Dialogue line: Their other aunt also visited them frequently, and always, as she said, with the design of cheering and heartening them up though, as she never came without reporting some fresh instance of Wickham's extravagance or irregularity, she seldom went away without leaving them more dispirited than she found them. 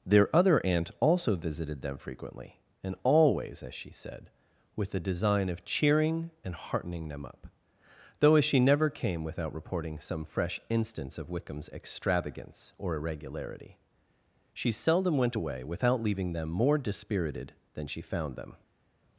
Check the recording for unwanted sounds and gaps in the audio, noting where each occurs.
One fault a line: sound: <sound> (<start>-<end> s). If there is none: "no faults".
no faults